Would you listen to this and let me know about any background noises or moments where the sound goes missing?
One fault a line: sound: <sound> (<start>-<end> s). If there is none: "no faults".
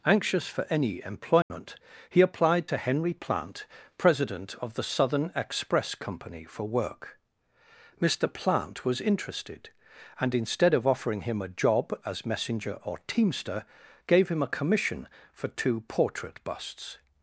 sound: dropout (1.4-1.5 s)